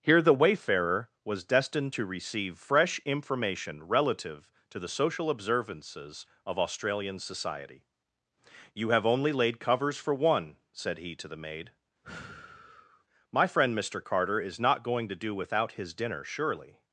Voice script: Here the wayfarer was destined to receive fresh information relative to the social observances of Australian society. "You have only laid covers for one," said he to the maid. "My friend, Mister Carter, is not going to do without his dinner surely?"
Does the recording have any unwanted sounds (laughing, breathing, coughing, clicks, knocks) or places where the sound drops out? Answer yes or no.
yes